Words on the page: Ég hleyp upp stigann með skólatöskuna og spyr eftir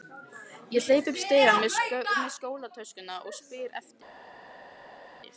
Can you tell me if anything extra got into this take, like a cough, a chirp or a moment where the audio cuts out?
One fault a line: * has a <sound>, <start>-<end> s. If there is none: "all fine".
all fine